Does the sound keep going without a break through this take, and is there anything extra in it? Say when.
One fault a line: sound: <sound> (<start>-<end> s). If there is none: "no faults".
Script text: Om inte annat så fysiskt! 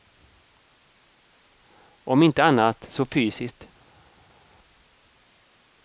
no faults